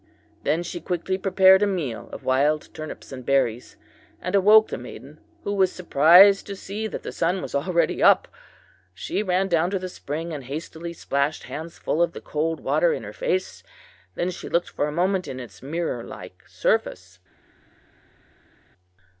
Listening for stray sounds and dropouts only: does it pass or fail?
pass